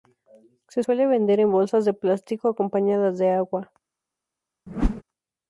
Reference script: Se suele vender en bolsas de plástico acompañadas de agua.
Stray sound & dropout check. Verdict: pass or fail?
fail